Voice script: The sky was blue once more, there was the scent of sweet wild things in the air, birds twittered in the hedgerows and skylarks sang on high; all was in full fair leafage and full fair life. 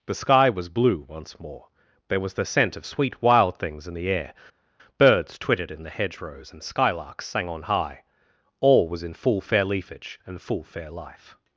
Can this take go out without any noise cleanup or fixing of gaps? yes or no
yes